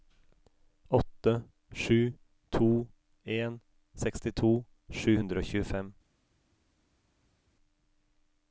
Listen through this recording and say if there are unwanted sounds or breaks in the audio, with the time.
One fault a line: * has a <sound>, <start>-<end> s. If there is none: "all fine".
all fine